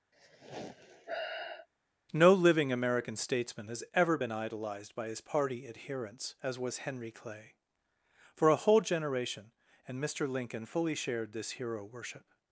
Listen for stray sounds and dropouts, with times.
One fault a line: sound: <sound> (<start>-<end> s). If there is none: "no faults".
sound: sigh (0.1-1.7 s)